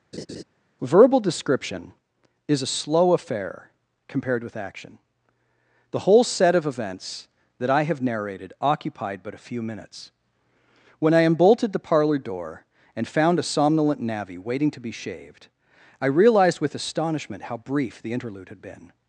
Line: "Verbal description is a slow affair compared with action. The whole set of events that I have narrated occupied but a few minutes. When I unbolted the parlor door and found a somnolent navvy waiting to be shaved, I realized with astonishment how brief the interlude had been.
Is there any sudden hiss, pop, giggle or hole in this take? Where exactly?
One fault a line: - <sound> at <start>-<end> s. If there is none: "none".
- laugh at 0.1-0.4 s